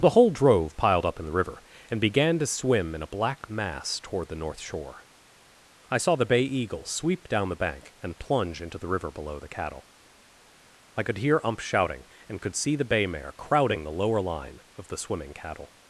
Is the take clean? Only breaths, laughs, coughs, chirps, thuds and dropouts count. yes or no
yes